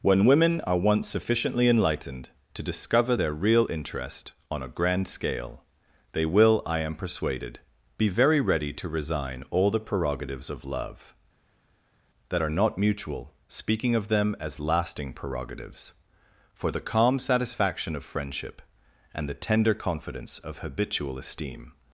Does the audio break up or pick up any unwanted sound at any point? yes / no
no